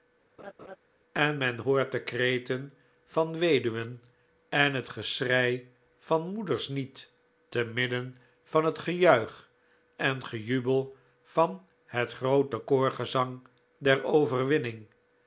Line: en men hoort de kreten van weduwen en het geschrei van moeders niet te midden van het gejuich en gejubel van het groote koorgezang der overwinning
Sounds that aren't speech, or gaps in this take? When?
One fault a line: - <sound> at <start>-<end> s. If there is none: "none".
- laugh at 0.4-0.8 s